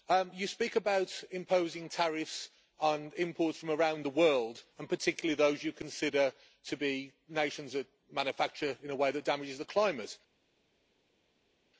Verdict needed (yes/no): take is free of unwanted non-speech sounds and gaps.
yes